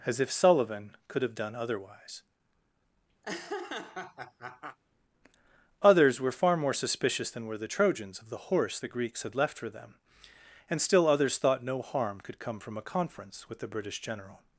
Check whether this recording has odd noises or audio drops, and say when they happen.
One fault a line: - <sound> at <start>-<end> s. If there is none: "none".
- laugh at 3.2-4.8 s